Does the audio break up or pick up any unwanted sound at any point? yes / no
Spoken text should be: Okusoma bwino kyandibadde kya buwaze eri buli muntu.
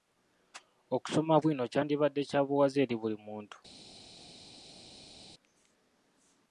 no